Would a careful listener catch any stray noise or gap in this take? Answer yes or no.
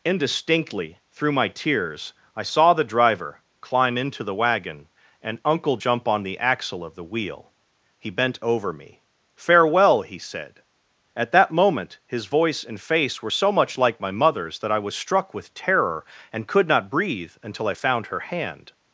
no